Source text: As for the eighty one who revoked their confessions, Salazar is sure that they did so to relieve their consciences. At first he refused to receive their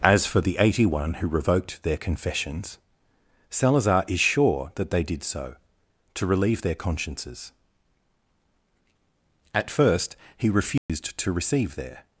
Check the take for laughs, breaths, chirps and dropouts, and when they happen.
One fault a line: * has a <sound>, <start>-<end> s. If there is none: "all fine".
* has a dropout, 10.8-10.9 s